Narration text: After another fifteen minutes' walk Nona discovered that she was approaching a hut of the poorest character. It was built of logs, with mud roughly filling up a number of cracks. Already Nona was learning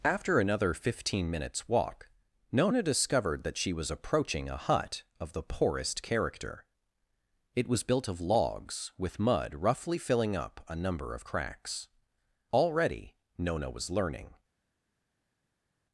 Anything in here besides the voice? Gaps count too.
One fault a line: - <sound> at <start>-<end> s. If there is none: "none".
none